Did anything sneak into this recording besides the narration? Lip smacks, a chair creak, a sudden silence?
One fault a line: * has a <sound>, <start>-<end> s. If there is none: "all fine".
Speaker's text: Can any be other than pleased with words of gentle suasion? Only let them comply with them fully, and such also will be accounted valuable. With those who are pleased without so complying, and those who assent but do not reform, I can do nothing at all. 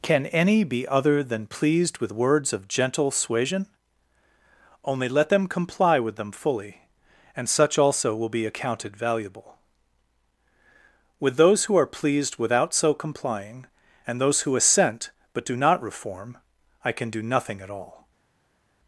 all fine